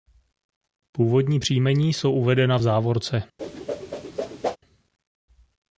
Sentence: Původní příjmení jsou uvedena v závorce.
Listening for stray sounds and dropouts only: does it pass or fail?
fail